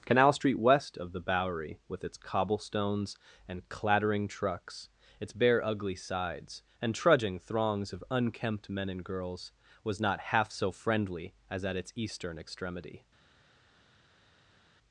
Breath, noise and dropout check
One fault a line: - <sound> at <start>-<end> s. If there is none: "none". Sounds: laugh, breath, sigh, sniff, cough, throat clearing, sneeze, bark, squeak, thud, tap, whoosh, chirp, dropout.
none